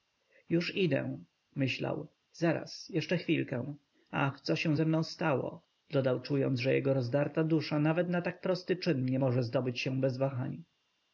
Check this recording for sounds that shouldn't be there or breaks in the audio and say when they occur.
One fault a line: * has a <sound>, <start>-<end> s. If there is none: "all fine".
all fine